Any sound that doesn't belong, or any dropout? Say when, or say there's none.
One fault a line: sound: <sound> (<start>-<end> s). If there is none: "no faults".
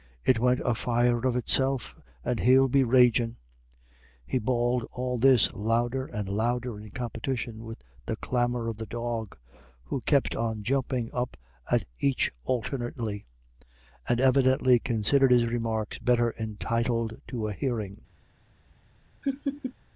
sound: laugh (19.2-19.7 s)